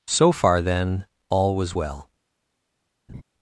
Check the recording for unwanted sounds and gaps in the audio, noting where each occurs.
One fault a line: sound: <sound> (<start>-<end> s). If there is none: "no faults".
sound: laugh (3.1-3.2 s)